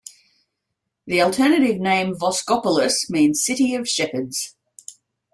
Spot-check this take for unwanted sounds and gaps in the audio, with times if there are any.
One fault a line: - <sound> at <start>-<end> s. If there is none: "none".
none